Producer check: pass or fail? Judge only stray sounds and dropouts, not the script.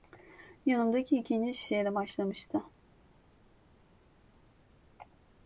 pass